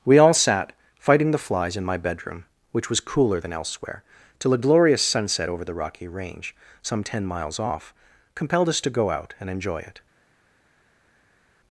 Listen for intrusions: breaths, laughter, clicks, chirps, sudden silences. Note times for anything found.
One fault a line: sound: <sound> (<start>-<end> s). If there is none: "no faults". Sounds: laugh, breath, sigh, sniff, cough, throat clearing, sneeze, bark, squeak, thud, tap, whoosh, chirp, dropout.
no faults